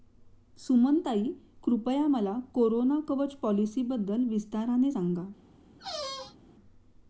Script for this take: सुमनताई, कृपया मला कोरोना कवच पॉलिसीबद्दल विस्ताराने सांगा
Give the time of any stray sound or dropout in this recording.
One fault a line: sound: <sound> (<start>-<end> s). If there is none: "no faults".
sound: squeak (5.8-6.4 s)